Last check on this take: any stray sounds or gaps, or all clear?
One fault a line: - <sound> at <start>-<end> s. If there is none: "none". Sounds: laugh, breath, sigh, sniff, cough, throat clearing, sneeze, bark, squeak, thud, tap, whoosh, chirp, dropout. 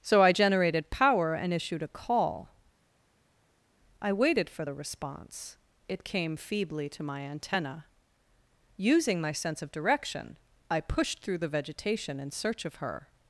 none